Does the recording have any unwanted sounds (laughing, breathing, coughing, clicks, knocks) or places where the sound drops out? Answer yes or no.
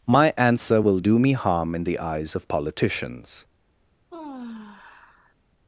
yes